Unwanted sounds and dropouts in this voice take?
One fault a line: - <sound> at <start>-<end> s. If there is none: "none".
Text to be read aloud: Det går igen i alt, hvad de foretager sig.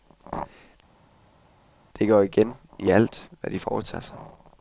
none